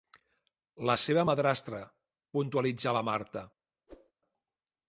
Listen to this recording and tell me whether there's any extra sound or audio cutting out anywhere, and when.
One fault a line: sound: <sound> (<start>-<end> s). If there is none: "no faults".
sound: whoosh (3.9-4.1 s)